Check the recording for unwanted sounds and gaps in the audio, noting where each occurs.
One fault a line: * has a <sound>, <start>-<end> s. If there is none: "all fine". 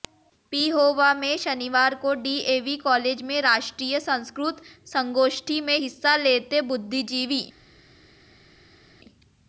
all fine